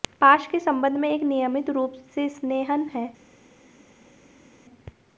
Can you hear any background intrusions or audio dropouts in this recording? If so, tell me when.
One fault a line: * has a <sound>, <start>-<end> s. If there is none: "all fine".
all fine